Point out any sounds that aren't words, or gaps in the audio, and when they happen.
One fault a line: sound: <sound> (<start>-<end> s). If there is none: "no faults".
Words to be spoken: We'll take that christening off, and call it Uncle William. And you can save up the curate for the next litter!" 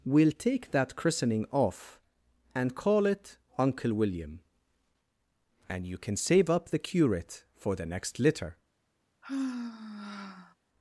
sound: sigh (9.2-10.5 s)